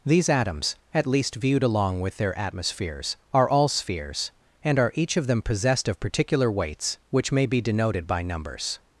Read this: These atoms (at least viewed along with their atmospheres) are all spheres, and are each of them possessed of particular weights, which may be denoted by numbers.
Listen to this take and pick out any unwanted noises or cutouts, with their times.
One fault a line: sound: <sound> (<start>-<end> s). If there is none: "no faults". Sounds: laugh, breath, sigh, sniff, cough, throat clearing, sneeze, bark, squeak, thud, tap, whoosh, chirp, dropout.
no faults